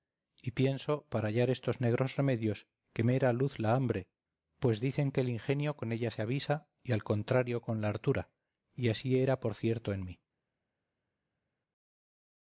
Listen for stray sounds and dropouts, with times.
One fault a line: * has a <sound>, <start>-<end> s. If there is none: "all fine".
all fine